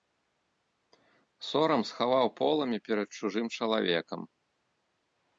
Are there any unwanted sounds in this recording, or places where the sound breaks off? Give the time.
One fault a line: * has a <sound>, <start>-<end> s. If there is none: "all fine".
all fine